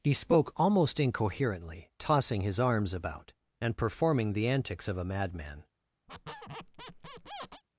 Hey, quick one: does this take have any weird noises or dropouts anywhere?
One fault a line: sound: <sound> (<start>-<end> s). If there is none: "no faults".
sound: squeak (6.1-7.6 s)